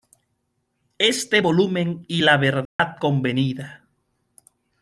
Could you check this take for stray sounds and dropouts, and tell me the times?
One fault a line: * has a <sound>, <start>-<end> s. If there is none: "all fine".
* has a dropout, 2.7-2.8 s